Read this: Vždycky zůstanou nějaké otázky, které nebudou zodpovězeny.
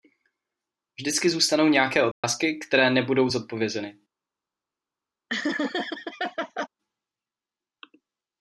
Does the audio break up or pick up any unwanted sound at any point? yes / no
yes